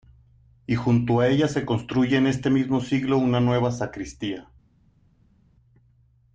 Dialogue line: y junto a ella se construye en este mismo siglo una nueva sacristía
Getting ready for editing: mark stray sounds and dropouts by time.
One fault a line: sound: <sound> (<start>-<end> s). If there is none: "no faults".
no faults